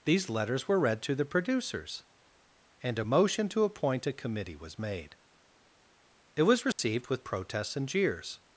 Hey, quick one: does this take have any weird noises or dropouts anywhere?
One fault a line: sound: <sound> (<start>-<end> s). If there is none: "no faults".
sound: dropout (6.7-6.8 s)